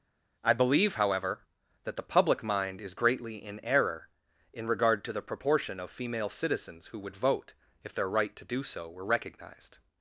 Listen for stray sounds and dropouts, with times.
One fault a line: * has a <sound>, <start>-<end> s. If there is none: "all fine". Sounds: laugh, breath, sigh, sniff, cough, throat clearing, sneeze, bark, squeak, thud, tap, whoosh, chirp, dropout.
all fine